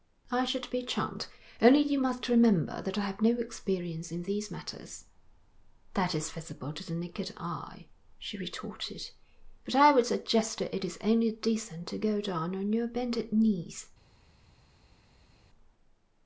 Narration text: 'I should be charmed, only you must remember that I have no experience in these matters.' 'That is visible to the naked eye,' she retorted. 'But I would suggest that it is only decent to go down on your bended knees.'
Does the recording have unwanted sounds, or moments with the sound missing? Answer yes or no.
no